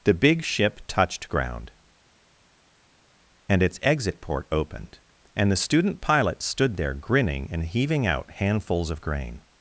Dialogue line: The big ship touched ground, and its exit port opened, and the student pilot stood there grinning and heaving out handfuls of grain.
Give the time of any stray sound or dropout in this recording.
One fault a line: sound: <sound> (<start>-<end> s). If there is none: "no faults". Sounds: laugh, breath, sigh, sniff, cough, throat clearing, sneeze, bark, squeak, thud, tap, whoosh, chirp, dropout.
no faults